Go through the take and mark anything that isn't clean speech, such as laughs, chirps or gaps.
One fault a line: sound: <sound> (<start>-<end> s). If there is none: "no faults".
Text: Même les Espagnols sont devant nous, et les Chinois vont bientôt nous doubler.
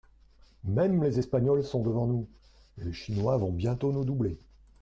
no faults